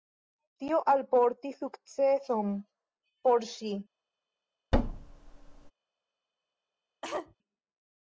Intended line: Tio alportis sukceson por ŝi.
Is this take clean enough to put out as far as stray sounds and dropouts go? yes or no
no